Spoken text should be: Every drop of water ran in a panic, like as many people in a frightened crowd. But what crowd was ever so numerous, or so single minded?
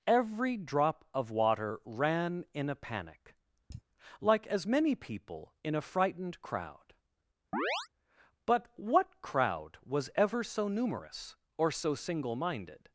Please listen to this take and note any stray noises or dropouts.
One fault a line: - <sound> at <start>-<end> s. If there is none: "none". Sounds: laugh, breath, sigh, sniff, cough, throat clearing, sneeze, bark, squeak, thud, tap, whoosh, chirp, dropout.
- sigh at 3.7-3.8 s
- chirp at 7.5-7.9 s